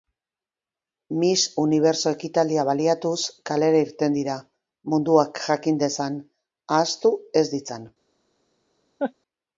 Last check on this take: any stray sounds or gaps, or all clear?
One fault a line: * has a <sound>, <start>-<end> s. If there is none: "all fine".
* has a laugh, 9.0-9.1 s